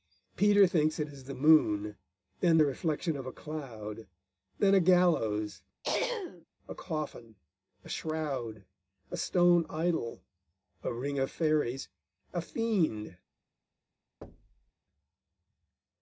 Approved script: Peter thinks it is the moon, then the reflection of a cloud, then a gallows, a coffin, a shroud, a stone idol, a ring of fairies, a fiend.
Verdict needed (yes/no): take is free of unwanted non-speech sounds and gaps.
no